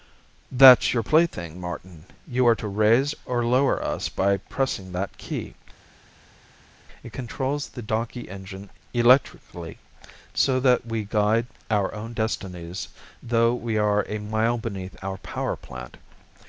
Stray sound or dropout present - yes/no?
no